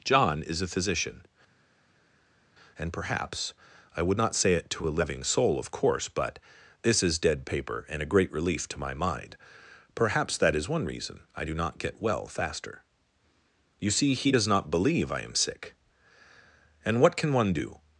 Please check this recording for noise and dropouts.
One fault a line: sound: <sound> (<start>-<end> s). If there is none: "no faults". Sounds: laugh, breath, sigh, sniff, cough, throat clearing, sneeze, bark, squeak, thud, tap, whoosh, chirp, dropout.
no faults